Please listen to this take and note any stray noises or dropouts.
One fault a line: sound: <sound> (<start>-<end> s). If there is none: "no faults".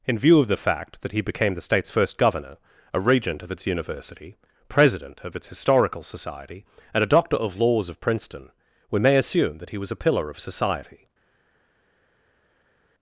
no faults